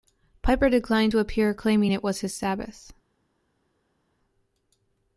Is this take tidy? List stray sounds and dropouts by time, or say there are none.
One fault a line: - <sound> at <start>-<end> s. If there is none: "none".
none